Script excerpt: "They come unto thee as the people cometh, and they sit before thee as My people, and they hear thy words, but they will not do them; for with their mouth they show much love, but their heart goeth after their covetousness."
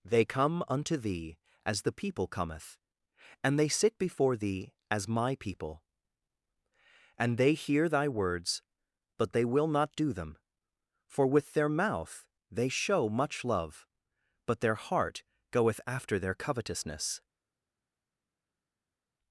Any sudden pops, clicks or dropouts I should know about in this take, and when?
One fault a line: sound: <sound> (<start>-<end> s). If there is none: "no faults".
no faults